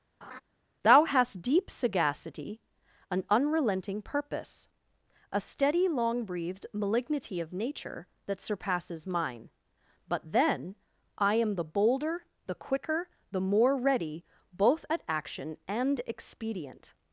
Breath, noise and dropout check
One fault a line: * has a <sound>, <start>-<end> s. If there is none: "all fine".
* has a laugh, 0.2-0.4 s